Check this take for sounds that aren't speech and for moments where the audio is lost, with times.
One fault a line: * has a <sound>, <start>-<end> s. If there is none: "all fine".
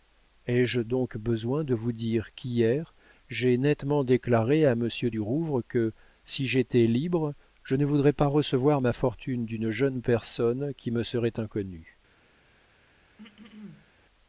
* has a throat clearing, 13.2-13.9 s